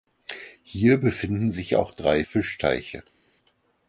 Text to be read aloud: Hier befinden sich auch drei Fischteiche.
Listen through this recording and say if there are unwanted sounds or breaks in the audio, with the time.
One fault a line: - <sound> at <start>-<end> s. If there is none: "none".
none